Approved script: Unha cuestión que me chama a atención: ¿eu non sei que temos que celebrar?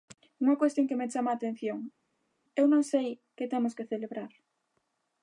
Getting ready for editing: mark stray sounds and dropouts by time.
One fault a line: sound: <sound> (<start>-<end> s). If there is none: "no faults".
no faults